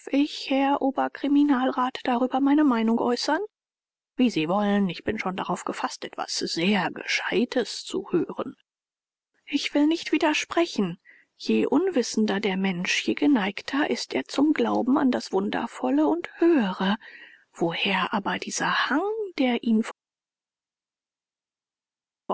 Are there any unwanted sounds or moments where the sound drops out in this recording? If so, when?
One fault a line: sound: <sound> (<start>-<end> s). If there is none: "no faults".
no faults